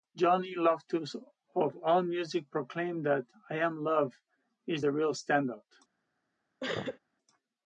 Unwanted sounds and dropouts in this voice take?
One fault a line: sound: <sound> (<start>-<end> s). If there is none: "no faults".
sound: sneeze (6.6-7.0 s)